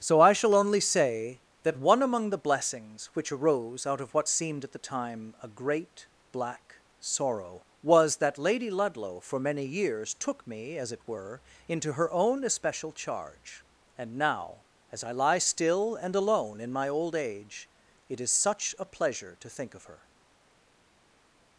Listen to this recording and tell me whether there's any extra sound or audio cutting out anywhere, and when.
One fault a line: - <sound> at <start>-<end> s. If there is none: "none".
none